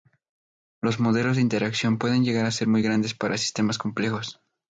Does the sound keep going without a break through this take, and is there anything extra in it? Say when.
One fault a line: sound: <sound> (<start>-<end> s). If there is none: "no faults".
no faults